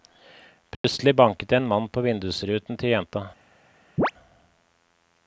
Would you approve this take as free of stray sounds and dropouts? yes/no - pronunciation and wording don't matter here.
no